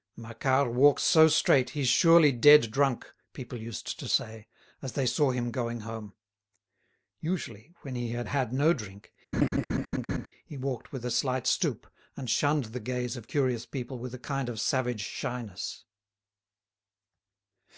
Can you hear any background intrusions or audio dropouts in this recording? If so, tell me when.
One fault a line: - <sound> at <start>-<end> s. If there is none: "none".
- laugh at 9.3-10.3 s